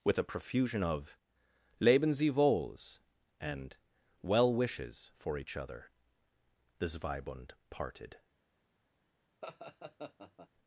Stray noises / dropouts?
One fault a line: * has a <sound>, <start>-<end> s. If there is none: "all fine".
* has a laugh, 9.4-10.5 s